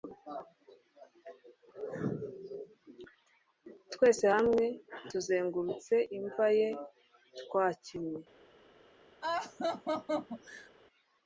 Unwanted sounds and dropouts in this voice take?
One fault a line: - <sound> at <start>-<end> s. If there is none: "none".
- laugh at 9.2-10.7 s